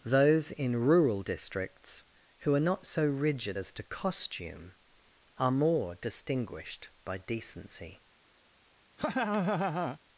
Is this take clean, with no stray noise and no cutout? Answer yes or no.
no